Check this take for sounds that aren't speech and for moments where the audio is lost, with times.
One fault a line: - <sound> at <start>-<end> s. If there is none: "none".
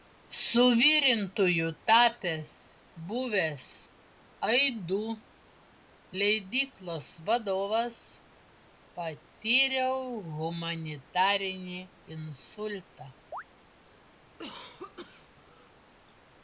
- chirp at 13.3-13.4 s
- cough at 14.2-15.8 s